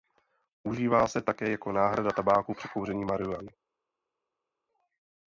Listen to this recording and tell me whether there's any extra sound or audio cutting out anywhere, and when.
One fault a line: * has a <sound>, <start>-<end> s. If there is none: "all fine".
all fine